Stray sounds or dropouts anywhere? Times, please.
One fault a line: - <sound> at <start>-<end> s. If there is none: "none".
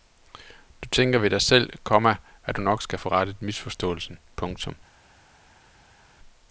none